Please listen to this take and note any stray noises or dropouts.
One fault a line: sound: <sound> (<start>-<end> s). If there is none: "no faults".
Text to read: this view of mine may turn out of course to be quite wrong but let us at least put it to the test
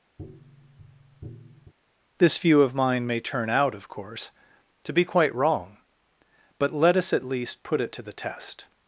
sound: tap (0.2-1.7 s)